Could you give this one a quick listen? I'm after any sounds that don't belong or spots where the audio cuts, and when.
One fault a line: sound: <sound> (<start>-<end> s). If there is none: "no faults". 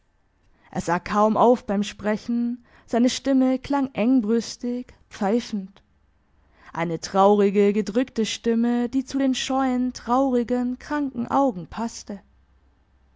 no faults